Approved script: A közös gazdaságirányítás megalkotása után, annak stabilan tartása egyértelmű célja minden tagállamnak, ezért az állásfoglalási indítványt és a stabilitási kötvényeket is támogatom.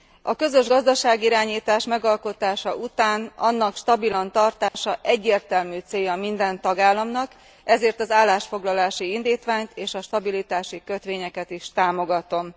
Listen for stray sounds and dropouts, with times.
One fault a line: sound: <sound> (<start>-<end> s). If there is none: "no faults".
sound: dropout (4.7-4.7 s)